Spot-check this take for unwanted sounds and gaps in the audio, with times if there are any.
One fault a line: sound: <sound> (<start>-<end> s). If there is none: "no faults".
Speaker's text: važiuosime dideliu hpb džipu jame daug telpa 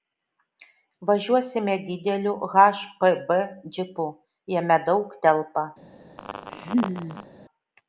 sound: laugh (6.2-7.3 s)